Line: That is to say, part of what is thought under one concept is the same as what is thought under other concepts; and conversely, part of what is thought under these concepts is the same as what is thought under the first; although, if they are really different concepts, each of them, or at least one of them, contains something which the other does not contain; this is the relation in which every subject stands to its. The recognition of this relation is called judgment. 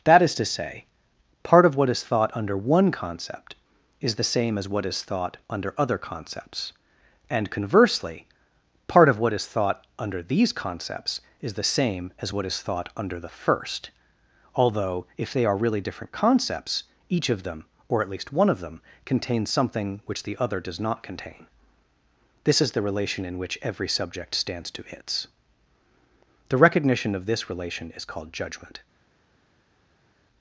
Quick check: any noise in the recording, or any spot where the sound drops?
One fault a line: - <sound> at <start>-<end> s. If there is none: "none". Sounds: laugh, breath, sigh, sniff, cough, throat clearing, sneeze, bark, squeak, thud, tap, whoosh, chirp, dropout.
none